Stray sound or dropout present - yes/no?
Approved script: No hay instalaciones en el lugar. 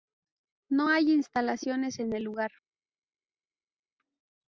no